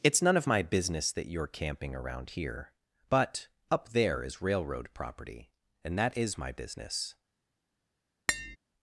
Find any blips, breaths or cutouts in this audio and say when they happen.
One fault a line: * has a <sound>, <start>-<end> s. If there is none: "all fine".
* has a tap, 8.3-8.6 s